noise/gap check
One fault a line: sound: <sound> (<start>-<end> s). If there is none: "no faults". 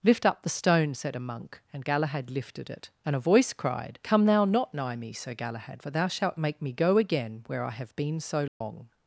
sound: dropout (8.5-8.6 s)